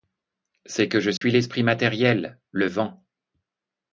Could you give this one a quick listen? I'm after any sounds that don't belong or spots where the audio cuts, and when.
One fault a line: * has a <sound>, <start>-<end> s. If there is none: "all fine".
* has a dropout, 1.2-1.2 s